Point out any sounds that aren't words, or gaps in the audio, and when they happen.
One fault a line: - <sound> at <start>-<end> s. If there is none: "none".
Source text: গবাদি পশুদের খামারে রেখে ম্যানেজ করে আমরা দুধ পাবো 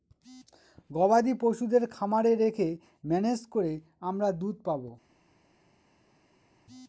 none